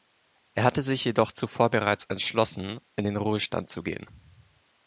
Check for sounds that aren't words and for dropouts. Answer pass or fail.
pass